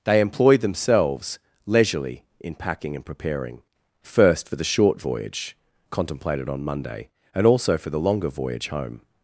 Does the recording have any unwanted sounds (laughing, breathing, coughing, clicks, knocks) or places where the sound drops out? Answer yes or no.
no